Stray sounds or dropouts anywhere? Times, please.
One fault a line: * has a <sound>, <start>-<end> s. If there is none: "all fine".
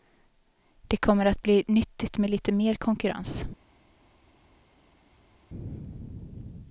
all fine